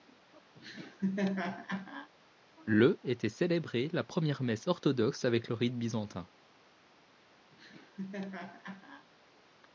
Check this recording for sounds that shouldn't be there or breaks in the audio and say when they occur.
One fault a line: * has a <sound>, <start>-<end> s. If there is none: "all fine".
* has a laugh, 0.5-2.1 s
* has a laugh, 7.5-9.1 s